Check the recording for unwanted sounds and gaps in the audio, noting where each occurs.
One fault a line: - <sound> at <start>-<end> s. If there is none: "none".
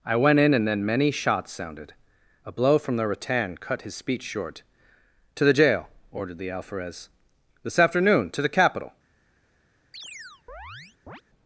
- chirp at 9.9-11.2 s